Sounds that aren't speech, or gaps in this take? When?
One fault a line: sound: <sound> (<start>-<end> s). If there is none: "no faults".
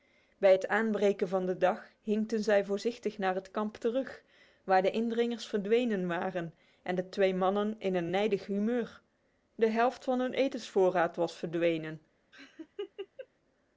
sound: laugh (12.3-13.3 s)